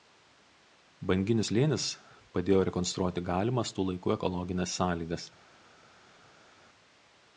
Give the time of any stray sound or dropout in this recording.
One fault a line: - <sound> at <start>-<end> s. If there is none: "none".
none